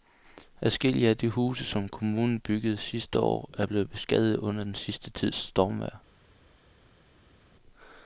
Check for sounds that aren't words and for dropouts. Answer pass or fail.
pass